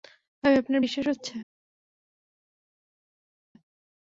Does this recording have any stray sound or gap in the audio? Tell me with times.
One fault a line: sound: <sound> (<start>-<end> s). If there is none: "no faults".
no faults